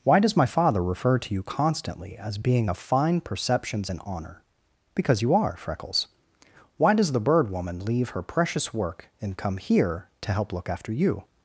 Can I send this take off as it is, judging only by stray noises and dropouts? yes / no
yes